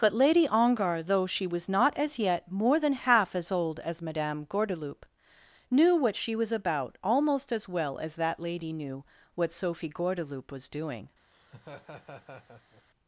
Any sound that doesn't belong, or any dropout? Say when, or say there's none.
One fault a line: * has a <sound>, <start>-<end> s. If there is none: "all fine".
* has a laugh, 11.3-12.8 s